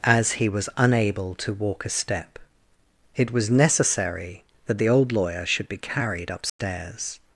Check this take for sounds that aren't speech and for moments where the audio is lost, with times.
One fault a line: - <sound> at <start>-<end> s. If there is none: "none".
- dropout at 6.5-6.6 s